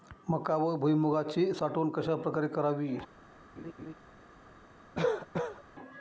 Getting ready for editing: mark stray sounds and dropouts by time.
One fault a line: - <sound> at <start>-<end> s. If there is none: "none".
- laugh at 3.6-3.9 s
- cough at 4.9-5.6 s